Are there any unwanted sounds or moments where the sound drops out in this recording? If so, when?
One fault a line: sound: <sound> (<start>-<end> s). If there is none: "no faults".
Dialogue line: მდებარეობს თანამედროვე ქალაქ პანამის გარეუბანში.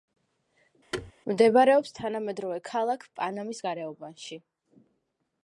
sound: thud (0.9-1.1 s)